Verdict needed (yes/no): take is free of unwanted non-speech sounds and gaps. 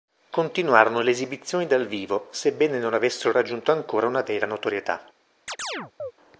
no